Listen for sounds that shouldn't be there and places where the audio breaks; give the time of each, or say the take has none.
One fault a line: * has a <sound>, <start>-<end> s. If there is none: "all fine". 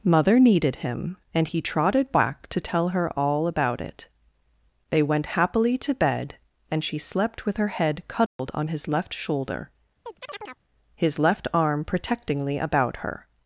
* has a dropout, 8.3-8.4 s
* has a chirp, 10.1-10.6 s